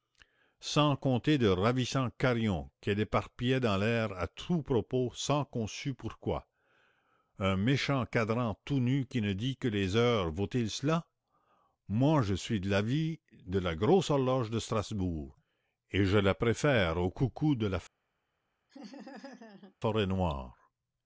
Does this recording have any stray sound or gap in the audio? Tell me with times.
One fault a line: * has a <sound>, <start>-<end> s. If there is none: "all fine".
* has a laugh, 18.7-19.8 s